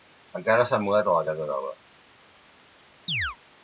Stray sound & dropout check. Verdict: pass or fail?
fail